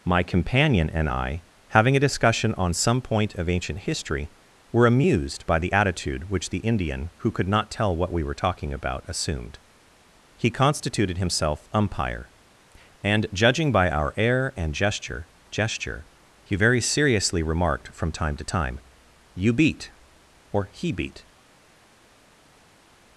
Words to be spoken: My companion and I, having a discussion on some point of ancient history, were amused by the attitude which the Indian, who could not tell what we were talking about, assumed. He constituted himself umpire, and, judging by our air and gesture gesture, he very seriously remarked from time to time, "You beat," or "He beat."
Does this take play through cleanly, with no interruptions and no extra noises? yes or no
yes